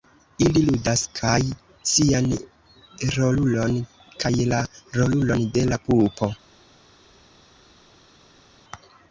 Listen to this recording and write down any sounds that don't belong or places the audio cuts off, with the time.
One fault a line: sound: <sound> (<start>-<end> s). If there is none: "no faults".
no faults